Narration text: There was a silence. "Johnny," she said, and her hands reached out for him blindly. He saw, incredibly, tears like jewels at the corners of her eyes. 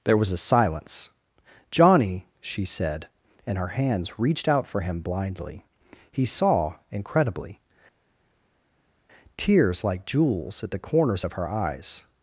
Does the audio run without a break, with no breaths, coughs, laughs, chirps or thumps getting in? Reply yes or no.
yes